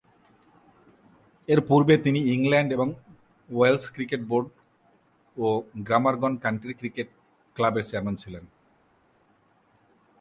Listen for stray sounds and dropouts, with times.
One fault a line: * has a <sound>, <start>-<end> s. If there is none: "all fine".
all fine